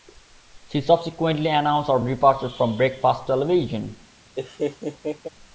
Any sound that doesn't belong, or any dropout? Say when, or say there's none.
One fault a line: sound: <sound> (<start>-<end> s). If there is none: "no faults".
sound: laugh (4.4-5.3 s)